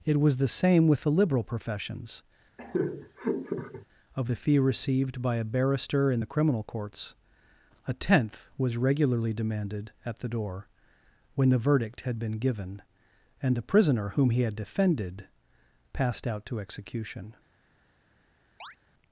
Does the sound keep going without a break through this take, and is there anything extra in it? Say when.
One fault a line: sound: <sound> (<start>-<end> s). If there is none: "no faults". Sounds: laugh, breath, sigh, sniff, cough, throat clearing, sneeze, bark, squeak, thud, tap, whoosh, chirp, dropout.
sound: laugh (2.6-3.9 s)
sound: chirp (18.6-18.8 s)